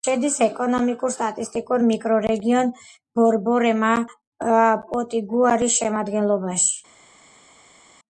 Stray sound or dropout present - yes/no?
no